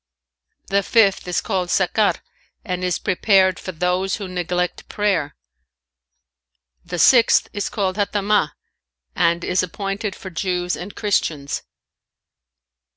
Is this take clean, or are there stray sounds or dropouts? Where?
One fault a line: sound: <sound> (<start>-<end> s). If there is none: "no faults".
no faults